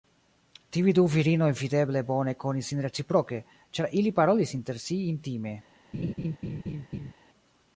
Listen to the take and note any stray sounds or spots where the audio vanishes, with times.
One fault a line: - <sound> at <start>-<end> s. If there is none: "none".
- laugh at 5.9-7.1 s